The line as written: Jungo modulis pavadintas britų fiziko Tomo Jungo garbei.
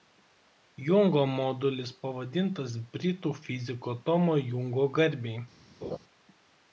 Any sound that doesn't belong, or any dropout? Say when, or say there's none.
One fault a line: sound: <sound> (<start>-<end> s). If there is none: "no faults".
sound: laugh (5.8-6.0 s)